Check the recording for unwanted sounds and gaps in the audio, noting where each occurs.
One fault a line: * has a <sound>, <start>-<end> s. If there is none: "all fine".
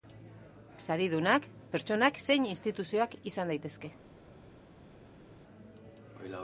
all fine